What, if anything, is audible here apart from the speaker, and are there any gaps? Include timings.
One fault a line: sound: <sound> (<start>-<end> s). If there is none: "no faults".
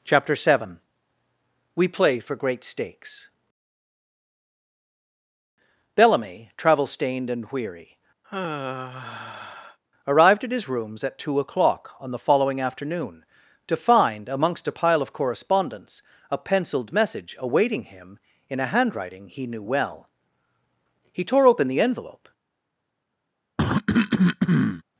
sound: sigh (8.2-9.8 s)
sound: cough (23.6-24.8 s)